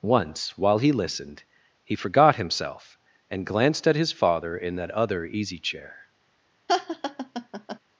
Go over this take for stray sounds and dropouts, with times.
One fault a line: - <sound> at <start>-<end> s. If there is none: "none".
- laugh at 6.7-7.8 s